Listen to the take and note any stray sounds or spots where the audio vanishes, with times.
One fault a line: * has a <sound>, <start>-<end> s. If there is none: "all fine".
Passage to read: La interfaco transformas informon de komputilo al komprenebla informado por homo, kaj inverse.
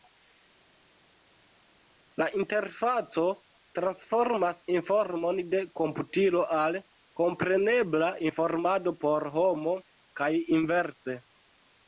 all fine